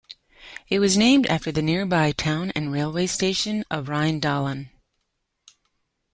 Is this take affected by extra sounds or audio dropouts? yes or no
no